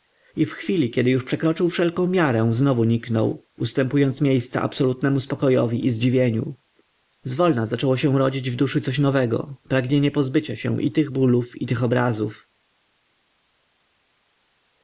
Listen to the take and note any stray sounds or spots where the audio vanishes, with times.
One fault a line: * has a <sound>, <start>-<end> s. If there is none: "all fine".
all fine